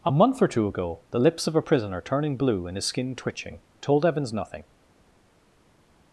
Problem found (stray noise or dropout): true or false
false